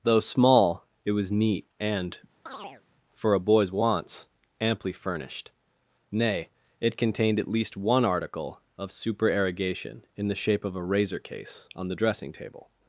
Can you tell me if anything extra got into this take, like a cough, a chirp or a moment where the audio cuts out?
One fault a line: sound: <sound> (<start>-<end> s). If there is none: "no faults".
sound: chirp (2.5-2.8 s)